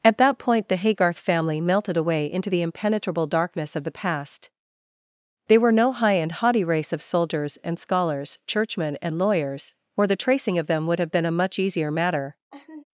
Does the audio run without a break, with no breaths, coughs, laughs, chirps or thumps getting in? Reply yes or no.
no